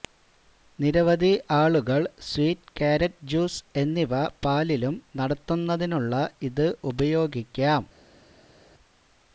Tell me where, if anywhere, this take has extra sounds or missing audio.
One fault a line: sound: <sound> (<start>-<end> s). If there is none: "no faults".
no faults